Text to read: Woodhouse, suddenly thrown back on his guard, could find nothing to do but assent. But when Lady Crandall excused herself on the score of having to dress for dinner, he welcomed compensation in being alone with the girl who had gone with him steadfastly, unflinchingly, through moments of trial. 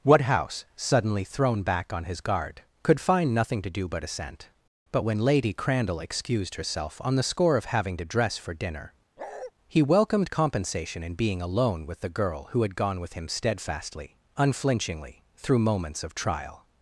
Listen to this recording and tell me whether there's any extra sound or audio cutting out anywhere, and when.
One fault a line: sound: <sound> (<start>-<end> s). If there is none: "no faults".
sound: bark (9.2-9.5 s)